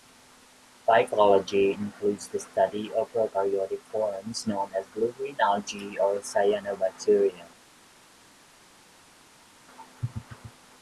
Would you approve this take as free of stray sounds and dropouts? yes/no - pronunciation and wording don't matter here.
yes